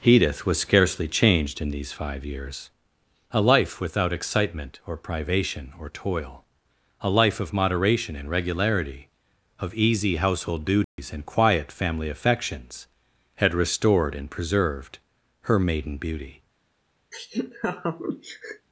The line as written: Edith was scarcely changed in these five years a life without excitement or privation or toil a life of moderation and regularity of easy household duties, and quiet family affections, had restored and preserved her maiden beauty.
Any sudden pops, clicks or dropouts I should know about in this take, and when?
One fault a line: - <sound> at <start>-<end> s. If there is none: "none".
- dropout at 10.8-11.0 s
- laugh at 17.1-18.7 s